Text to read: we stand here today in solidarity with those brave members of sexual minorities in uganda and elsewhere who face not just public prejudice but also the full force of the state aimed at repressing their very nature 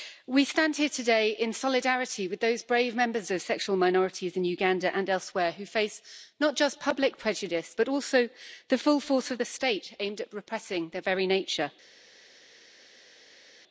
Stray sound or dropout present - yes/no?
no